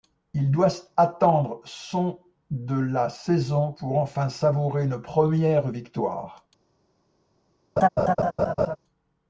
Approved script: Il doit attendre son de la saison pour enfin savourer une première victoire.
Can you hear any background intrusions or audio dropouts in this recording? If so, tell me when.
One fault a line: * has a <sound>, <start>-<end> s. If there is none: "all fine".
* has a laugh, 7.8-8.8 s